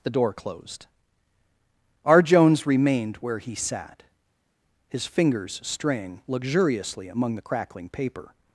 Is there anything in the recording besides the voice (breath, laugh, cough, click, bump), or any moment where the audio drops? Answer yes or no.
no